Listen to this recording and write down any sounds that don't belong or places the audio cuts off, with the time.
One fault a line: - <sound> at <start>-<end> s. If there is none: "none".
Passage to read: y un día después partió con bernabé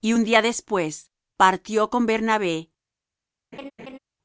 - laugh at 3.5-4.0 s